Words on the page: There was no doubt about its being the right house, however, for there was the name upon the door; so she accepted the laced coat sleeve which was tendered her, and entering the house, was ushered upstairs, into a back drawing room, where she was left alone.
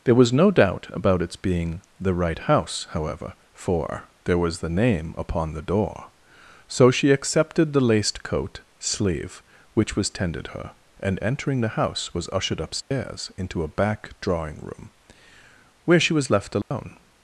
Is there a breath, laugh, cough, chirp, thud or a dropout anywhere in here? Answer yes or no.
yes